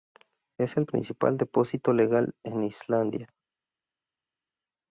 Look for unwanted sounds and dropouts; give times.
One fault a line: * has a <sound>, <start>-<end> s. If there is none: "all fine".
all fine